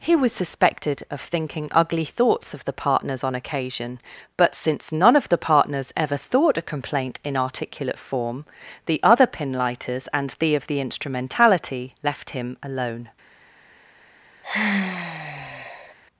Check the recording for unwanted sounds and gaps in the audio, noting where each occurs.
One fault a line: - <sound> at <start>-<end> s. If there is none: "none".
- sigh at 14.4-15.9 s